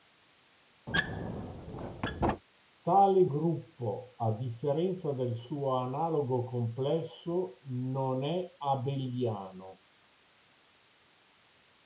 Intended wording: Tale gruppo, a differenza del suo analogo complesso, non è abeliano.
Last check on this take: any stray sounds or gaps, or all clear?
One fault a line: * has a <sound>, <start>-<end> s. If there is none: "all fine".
* has a squeak, 0.9-2.4 s